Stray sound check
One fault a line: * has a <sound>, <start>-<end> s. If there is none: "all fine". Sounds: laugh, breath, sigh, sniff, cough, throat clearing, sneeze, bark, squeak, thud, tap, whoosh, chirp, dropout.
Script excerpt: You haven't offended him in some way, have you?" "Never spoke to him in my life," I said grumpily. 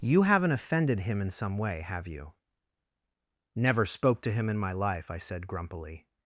all fine